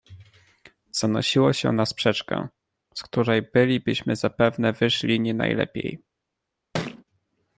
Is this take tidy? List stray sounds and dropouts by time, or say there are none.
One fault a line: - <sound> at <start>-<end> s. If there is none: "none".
- thud at 6.7-7.0 s